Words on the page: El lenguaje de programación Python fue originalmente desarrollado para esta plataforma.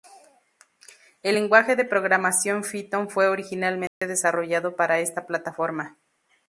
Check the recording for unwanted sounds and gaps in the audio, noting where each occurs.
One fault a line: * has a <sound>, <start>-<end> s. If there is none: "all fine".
* has a dropout, 3.9-4.0 s